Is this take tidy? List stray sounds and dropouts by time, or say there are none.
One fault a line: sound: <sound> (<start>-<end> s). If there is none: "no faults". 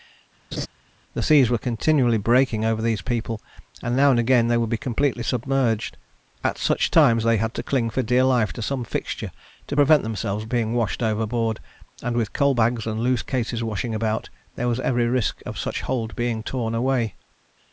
sound: laugh (0.5-0.7 s)